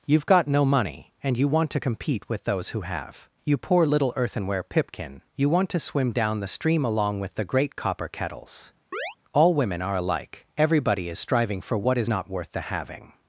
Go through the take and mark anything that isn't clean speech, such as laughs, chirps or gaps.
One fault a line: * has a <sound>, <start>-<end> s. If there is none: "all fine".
* has a chirp, 8.9-9.2 s